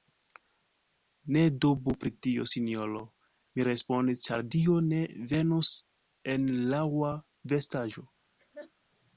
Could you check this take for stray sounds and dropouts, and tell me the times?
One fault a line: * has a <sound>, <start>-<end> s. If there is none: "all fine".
* has a laugh, 8.4-8.7 s